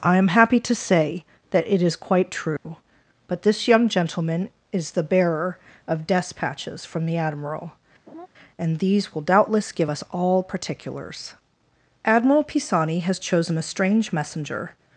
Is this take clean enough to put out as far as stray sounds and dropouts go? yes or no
no